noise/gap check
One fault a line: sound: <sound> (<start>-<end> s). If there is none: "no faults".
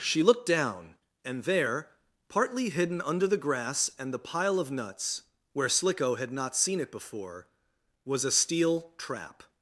no faults